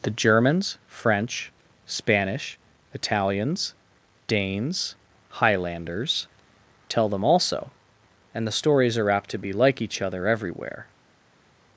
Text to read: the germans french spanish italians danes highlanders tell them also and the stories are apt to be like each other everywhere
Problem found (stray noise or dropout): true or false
false